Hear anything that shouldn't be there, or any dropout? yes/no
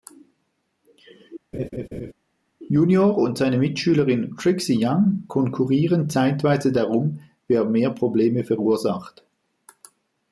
yes